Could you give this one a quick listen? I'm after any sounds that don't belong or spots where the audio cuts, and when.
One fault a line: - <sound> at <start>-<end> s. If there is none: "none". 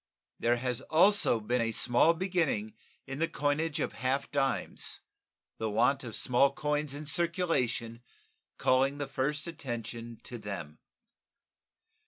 none